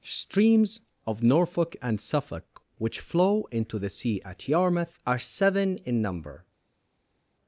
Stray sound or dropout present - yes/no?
no